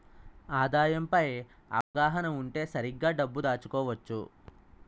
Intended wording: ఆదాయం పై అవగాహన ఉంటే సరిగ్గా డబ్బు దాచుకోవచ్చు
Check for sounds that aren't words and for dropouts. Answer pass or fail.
fail